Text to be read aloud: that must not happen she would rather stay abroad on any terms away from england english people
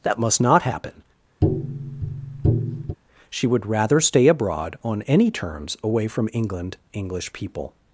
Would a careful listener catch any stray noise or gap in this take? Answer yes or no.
yes